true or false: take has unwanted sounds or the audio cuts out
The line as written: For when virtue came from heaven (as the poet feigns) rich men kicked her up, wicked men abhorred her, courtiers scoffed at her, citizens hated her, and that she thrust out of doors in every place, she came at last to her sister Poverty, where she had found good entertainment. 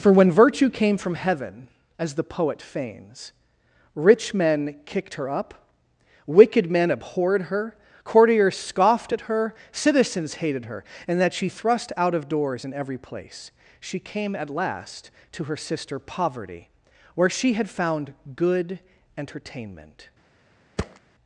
true